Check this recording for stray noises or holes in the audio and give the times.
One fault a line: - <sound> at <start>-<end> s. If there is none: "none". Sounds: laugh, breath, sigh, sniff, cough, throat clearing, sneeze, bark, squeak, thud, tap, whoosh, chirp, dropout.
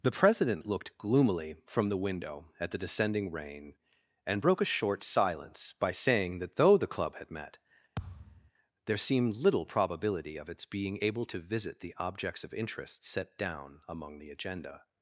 - thud at 8.0-8.5 s